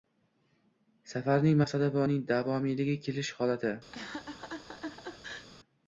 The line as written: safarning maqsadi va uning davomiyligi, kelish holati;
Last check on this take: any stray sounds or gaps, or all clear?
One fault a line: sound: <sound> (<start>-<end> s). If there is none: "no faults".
sound: laugh (3.9-5.5 s)